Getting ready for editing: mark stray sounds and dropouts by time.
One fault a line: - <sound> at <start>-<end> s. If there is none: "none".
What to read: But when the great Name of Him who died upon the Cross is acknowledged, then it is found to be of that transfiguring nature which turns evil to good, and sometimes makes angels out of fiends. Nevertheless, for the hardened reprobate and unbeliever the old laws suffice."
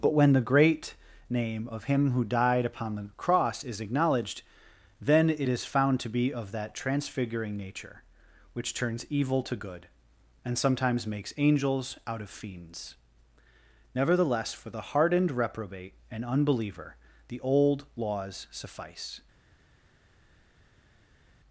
none